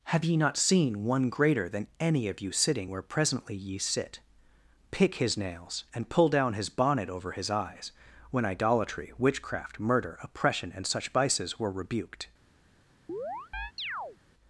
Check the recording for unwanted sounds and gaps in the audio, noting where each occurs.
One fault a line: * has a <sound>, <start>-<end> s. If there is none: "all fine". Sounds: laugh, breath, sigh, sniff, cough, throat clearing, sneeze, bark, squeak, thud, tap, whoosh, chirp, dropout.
* has a chirp, 13.1-14.2 s